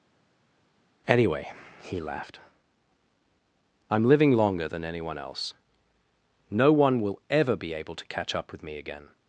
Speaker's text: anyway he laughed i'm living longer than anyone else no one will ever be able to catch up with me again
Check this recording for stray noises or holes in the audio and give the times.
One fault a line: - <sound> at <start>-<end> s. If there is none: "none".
none